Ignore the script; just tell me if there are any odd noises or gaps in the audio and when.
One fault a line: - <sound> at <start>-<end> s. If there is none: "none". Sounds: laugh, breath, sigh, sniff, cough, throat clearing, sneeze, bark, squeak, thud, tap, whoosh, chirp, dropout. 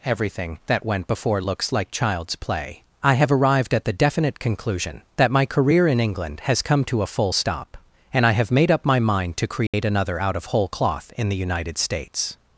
- dropout at 9.7-9.7 s